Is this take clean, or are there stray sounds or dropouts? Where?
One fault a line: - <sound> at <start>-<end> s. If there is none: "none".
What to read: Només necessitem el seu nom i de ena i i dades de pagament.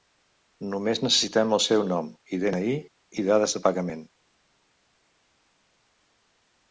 none